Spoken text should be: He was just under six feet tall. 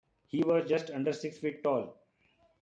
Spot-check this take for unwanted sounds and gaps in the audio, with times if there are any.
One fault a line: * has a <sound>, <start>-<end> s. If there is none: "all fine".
all fine